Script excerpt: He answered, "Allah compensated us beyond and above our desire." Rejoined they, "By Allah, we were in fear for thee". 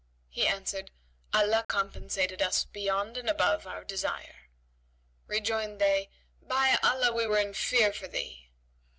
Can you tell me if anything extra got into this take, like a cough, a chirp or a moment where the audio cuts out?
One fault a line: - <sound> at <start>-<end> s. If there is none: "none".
- dropout at 1.6-1.7 s